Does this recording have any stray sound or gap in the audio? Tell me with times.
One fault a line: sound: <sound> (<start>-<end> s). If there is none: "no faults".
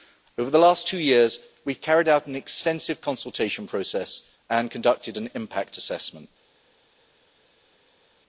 no faults